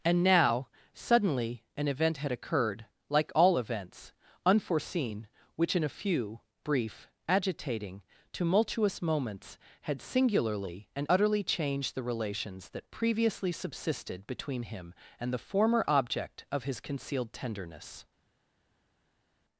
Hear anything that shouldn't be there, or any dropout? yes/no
no